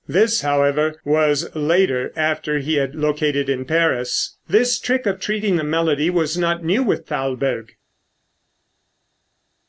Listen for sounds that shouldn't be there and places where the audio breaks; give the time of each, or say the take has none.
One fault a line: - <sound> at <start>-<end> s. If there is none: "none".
none